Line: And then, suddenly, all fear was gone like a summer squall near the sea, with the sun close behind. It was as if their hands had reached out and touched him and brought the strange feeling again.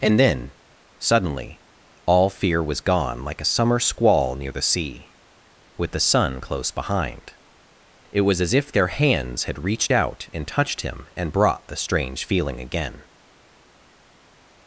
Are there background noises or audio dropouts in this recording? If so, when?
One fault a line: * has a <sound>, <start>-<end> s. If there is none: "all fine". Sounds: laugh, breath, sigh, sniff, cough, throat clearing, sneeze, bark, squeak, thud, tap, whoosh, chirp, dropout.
all fine